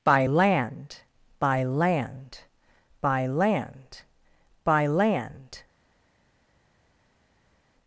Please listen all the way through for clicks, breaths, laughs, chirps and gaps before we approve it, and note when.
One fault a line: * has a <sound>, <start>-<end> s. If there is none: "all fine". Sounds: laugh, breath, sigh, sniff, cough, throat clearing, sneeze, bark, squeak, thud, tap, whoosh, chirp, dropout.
all fine